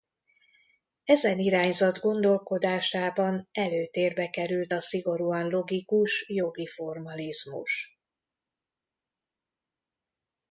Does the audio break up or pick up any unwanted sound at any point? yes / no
no